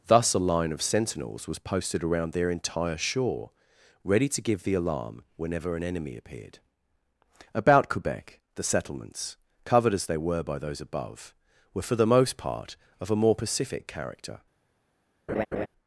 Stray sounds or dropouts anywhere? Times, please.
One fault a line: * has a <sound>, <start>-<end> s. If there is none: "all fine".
* has a laugh, 15.3-15.7 s